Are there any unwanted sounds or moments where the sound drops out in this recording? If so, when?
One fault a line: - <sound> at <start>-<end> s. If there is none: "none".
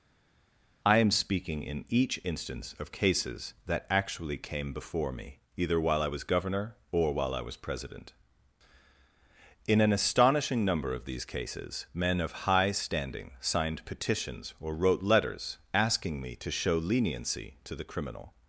none